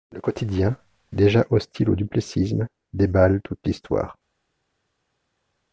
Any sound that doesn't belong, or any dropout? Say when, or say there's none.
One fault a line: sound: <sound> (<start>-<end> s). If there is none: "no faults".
no faults